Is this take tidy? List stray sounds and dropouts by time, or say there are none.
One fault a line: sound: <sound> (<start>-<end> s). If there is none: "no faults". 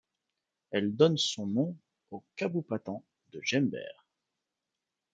no faults